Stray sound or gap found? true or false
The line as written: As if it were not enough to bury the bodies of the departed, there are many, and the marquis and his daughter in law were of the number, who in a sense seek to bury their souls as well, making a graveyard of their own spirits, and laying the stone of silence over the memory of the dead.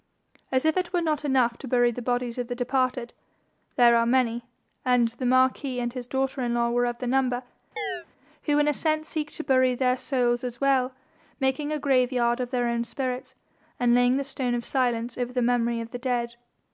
true